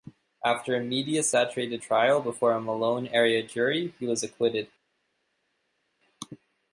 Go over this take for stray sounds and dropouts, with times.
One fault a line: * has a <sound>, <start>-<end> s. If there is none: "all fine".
all fine